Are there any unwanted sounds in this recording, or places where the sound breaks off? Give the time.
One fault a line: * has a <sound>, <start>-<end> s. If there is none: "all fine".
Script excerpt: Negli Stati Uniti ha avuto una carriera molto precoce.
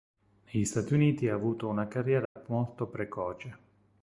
* has a dropout, 2.3-2.4 s